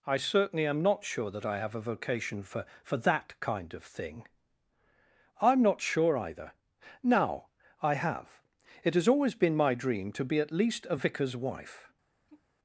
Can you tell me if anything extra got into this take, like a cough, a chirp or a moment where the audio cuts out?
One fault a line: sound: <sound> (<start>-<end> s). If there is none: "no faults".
sound: sigh (12.3-12.4 s)